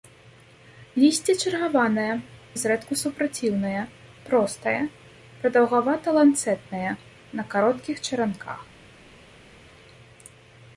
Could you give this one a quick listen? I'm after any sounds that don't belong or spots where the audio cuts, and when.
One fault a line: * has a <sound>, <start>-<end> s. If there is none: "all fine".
all fine